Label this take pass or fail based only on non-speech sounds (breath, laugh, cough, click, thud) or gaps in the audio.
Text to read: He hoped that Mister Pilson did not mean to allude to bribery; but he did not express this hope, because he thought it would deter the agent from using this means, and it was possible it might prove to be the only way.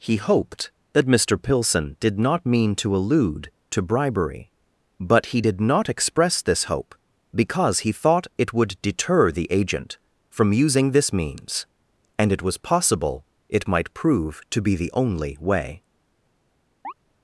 fail